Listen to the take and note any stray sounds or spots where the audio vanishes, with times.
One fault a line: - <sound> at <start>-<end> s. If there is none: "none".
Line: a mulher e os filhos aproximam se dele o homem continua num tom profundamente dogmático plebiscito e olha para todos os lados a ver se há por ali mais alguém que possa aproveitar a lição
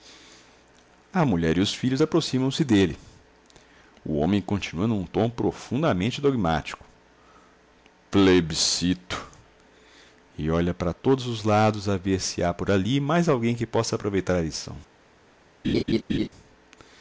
- laugh at 15.6-16.3 s